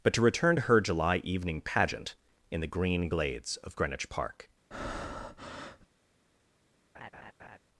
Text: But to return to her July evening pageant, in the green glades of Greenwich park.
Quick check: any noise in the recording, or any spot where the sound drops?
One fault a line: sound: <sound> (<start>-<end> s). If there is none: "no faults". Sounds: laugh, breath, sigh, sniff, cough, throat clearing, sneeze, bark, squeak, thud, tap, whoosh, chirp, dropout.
sound: breath (4.7-5.9 s)
sound: laugh (6.9-7.6 s)